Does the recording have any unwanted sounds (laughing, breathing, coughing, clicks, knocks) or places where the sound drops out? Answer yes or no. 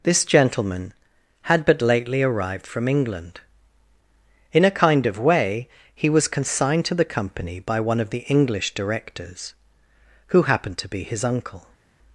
no